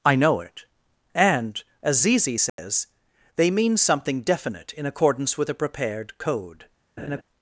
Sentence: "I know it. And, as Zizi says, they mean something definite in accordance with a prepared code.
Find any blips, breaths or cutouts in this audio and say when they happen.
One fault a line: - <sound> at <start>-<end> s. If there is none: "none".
- dropout at 2.5-2.6 s
- laugh at 7.0-7.2 s